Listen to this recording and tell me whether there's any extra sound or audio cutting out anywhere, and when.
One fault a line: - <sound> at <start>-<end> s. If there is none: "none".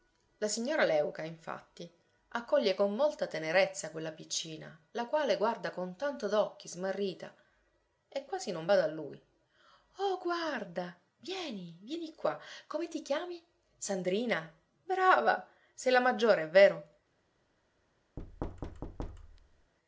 - thud at 18.2-19.7 s